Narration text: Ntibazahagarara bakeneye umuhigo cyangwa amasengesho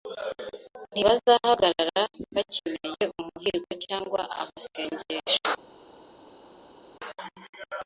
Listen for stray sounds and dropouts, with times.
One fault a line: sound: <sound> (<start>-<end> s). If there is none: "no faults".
no faults